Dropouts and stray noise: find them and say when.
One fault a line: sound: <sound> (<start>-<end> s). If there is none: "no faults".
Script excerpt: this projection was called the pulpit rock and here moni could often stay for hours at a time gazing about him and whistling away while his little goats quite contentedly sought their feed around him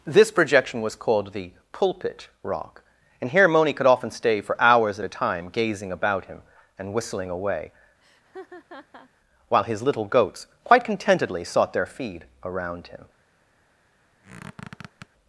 sound: laugh (8.0-9.1 s)
sound: squeak (14.2-15.1 s)